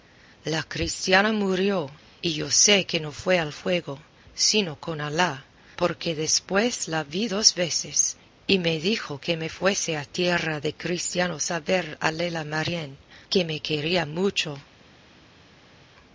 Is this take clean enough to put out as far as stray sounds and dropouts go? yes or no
yes